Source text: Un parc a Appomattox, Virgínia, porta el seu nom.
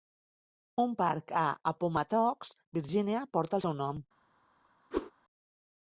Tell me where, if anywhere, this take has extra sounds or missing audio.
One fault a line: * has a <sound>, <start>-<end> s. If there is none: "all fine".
* has a whoosh, 4.9-5.1 s